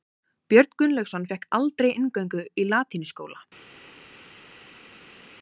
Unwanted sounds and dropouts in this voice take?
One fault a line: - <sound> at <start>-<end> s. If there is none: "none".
none